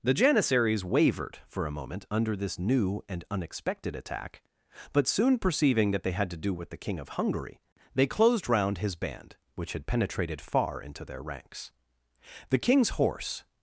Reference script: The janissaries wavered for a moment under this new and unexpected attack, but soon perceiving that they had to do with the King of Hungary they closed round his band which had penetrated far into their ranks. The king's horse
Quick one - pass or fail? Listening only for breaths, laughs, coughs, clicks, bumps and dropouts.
pass